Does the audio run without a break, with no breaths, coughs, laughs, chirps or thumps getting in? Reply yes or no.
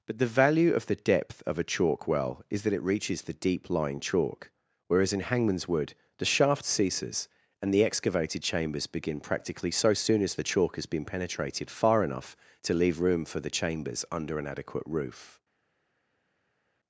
yes